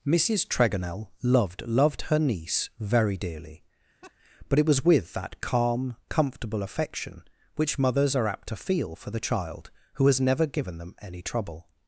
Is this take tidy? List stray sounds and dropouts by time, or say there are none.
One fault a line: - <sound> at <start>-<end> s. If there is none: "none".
- laugh at 4.0-4.1 s